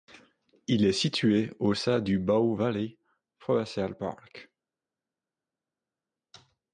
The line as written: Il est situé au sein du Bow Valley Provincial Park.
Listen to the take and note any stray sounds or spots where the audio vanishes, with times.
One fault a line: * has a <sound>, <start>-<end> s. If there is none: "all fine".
all fine